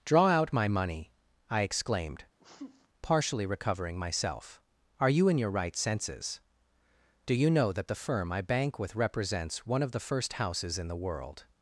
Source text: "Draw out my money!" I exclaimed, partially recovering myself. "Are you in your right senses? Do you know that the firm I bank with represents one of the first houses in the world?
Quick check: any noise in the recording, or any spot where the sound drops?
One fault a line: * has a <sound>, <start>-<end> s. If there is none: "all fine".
* has a sneeze, 2.4-2.9 s